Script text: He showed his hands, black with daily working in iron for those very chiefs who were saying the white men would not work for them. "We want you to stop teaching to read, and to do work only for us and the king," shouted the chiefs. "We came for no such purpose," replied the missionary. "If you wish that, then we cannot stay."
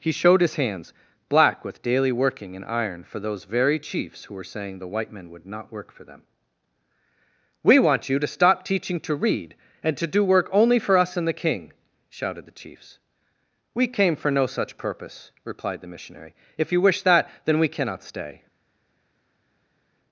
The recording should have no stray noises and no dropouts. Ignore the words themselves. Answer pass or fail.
pass